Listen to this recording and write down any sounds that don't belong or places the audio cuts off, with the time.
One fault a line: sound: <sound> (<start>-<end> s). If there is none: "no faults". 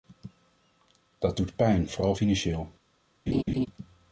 sound: laugh (3.3-3.7 s)